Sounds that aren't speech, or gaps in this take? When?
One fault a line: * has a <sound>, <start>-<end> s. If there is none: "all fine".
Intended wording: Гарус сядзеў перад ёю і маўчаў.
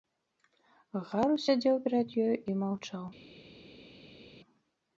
all fine